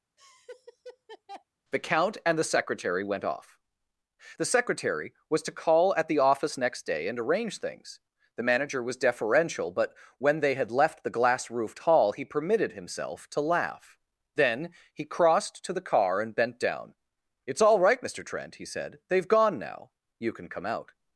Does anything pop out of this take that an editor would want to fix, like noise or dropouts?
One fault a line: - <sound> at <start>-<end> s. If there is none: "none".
- laugh at 0.2-1.4 s